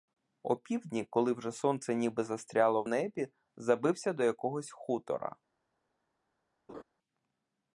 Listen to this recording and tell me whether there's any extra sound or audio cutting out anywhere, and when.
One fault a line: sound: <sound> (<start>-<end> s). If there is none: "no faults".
sound: laugh (6.7-6.8 s)